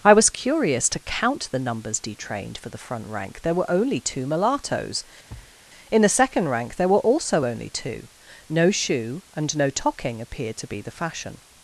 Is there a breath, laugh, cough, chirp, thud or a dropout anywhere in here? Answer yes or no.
yes